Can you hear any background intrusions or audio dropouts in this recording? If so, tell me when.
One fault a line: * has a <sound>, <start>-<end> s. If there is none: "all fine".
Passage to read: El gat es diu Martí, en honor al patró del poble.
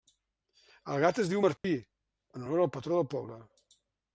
* has a dropout, 1.6-1.6 s